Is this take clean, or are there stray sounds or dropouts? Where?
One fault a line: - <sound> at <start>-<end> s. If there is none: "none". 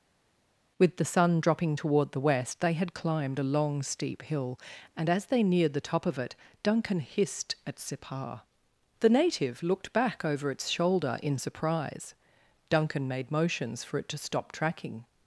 none